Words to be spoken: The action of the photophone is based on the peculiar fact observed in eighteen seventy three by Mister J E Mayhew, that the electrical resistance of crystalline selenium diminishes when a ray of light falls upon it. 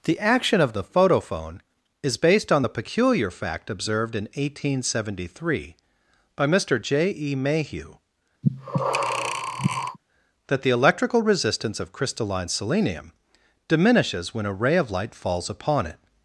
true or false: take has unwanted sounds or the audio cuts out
true